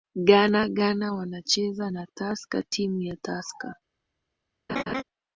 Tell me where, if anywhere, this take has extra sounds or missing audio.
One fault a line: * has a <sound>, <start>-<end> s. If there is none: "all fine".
* has a laugh, 4.7-5.0 s